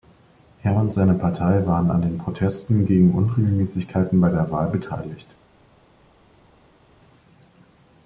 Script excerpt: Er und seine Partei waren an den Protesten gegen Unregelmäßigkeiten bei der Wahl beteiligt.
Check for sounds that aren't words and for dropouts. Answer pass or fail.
pass